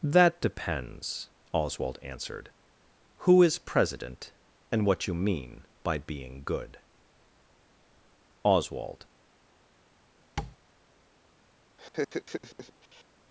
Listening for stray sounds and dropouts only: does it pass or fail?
fail